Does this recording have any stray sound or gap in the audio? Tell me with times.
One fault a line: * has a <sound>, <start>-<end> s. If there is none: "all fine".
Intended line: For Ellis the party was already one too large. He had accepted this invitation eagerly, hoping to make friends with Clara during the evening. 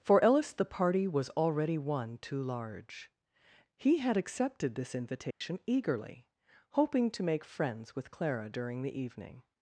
* has a dropout, 5.3-5.4 s